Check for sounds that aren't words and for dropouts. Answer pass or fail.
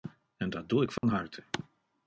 fail